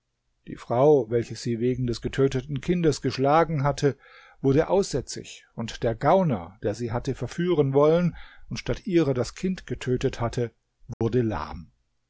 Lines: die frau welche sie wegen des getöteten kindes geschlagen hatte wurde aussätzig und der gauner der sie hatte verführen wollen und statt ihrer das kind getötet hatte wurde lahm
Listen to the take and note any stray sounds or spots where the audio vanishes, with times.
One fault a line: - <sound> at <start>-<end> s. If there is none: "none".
- dropout at 10.9-11.0 s